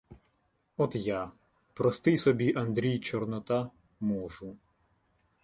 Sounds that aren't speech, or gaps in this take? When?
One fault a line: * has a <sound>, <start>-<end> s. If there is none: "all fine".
all fine